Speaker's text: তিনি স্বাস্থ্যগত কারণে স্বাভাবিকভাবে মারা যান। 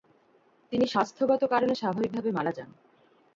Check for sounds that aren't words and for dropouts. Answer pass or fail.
pass